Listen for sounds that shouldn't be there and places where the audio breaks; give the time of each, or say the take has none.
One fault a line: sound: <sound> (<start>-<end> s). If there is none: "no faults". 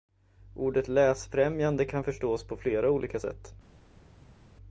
no faults